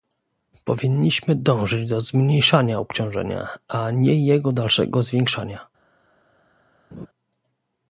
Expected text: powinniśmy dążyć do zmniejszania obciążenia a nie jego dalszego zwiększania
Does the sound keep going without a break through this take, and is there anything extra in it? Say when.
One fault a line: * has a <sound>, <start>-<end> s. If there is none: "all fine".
* has a laugh, 6.9-7.1 s